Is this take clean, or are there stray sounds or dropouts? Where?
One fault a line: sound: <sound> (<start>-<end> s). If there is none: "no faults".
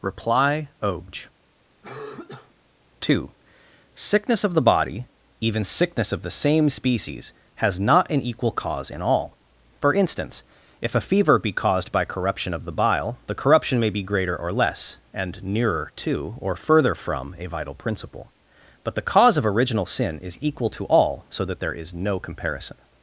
sound: cough (1.8-2.5 s)